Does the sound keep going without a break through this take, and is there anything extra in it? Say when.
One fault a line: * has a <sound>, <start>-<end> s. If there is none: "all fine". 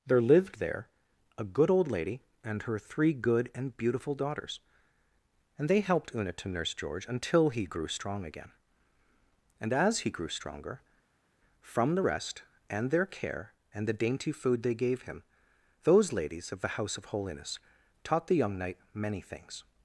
all fine